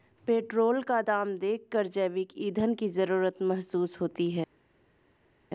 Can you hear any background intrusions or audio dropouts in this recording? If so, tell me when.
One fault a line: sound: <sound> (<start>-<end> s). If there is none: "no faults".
no faults